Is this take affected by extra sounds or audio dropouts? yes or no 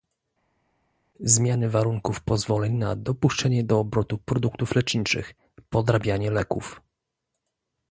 no